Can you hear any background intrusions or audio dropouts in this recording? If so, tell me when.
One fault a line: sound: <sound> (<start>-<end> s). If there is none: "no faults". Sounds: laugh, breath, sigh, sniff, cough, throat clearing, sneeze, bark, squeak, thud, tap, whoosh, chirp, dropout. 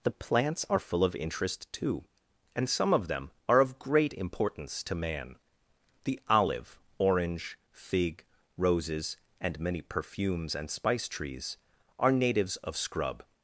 no faults